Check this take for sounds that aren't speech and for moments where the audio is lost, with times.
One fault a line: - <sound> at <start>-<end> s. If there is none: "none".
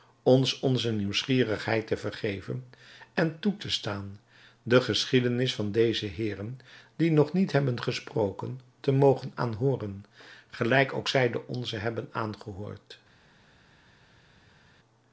none